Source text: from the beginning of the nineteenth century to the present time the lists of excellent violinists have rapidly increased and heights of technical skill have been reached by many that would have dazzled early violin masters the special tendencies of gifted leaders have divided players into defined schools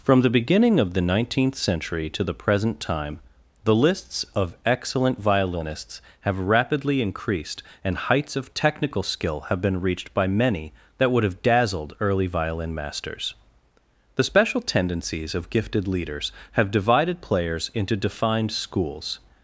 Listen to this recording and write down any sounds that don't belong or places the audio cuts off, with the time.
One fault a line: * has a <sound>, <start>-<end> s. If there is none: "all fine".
all fine